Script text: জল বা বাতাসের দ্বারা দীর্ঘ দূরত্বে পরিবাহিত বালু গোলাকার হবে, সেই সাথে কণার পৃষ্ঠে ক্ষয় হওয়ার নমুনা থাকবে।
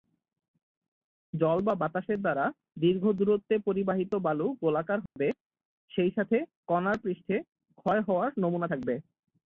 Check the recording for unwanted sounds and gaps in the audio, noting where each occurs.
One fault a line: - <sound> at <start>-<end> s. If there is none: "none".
- dropout at 5.1-5.2 s